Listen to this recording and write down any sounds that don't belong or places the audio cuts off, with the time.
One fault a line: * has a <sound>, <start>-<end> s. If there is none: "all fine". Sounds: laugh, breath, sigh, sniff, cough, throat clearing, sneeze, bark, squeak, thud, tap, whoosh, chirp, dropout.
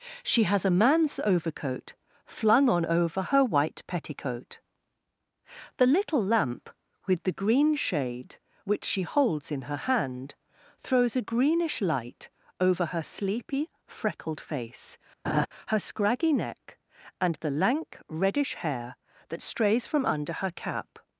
* has a laugh, 15.2-15.5 s